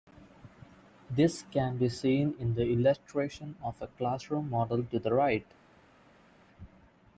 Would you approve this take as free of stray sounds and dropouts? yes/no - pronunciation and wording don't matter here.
yes